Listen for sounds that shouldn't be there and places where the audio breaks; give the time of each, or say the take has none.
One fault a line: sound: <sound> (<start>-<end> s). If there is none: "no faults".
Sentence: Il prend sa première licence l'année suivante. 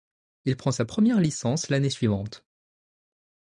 no faults